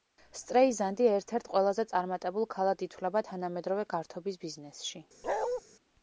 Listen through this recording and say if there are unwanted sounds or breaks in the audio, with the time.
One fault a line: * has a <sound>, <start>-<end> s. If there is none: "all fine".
* has a bark, 5.2-5.6 s